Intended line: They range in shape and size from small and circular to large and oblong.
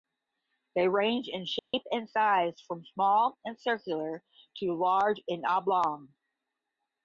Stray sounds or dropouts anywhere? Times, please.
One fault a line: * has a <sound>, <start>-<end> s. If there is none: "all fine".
* has a dropout, 1.6-1.7 s